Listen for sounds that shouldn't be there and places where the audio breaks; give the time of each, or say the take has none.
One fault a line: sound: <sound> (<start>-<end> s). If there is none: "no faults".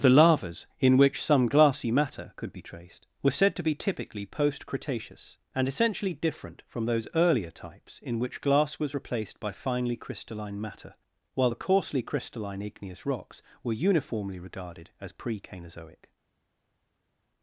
no faults